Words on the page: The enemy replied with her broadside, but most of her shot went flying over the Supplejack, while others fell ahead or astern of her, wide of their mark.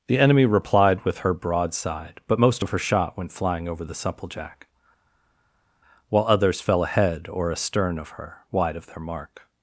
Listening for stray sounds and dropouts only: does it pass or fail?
pass